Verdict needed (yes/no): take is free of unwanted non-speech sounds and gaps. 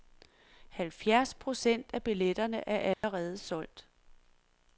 no